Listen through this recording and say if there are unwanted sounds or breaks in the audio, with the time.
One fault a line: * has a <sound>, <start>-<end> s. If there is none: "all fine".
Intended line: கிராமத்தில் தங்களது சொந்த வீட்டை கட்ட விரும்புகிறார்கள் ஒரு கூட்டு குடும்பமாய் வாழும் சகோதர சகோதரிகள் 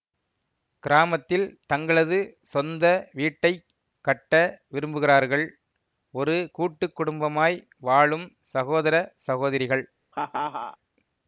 * has a laugh, 10.1-10.8 s